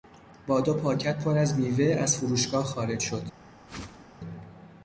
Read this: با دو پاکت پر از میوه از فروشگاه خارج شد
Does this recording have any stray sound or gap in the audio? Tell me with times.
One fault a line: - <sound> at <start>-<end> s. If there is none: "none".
- whoosh at 3.7-4.1 s